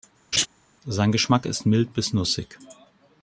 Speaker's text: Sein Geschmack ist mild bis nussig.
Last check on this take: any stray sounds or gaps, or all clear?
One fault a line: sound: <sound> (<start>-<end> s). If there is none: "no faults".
sound: laugh (0.3-0.5 s)